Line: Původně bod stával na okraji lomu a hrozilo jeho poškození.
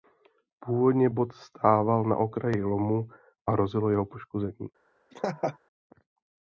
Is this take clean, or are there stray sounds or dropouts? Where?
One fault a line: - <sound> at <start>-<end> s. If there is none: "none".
- laugh at 5.1-5.6 s